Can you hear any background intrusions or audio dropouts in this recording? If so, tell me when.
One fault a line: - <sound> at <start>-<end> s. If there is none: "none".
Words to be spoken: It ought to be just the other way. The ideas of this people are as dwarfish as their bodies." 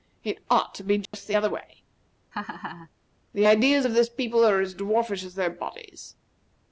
- dropout at 1.1-1.1 s
- laugh at 2.3-2.9 s